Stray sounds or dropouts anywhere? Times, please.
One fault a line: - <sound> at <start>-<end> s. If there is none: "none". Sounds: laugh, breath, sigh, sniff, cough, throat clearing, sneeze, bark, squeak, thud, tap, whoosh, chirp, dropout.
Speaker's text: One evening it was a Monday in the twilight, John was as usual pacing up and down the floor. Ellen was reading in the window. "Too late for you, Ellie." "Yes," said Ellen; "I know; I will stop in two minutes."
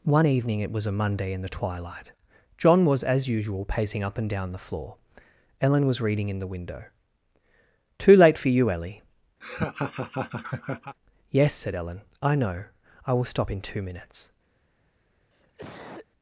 - laugh at 9.4-11.0 s
- cough at 15.3-16.1 s